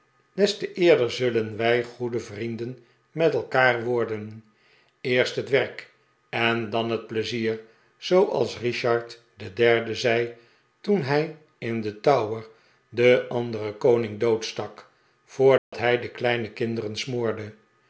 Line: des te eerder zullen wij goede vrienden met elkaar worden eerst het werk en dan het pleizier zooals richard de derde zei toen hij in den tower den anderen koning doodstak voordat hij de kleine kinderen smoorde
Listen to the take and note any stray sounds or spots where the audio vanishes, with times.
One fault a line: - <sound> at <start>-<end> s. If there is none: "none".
- dropout at 15.6-15.7 s